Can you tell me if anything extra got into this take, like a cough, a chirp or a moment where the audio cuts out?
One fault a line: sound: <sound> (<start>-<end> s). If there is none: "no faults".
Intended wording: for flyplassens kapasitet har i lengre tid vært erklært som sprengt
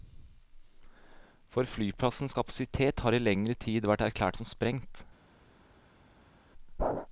no faults